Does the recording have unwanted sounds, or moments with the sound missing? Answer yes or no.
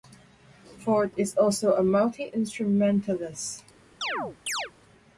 yes